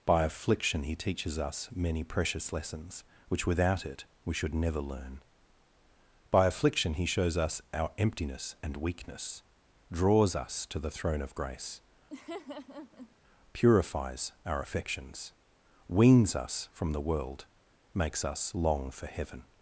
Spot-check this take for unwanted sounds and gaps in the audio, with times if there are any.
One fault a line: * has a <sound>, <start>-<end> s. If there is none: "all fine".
* has a laugh, 12.1-13.2 s